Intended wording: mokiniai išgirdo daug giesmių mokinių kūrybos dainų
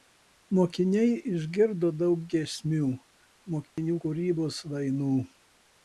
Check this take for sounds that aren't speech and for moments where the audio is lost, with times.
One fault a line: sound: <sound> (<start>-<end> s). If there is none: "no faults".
sound: dropout (3.7-3.8 s)